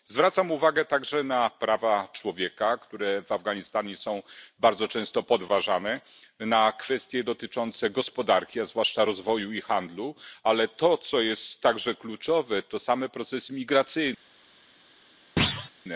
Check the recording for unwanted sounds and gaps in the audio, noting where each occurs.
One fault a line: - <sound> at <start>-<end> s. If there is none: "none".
- thud at 15.4-15.7 s